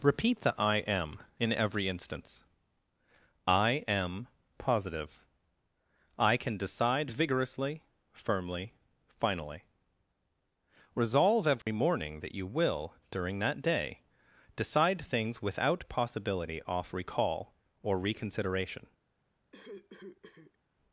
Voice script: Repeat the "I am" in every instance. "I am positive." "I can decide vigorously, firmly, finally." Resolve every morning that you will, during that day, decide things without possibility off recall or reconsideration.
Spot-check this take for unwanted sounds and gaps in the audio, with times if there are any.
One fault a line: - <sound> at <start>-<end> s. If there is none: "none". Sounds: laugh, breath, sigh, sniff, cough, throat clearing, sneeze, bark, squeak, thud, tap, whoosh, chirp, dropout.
- dropout at 11.6-11.7 s
- cough at 19.5-20.6 s